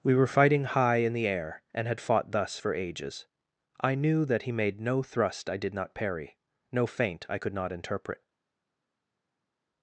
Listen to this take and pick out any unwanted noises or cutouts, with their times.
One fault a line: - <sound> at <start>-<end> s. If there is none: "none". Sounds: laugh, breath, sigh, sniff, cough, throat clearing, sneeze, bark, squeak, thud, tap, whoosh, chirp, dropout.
none